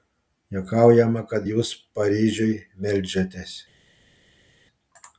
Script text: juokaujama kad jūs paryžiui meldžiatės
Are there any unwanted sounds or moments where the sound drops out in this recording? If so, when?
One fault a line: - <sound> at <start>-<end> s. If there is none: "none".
none